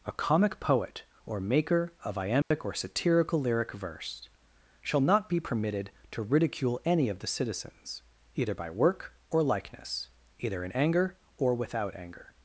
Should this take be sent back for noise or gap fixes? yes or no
yes